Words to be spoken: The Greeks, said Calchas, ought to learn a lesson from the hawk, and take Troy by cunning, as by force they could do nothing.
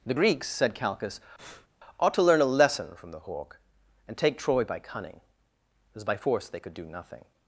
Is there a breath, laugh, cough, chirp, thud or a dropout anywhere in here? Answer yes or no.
yes